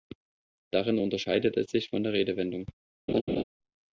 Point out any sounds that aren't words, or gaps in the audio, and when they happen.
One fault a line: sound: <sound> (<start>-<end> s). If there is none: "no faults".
sound: laugh (3.1-3.4 s)